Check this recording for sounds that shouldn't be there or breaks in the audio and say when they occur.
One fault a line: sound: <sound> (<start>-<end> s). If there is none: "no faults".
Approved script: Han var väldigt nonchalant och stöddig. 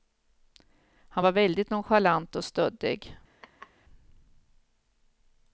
sound: laugh (3.4-3.7 s)